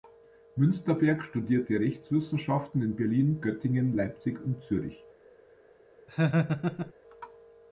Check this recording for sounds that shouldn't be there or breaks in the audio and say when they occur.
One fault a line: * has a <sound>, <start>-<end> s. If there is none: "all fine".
* has a laugh, 6.1-6.9 s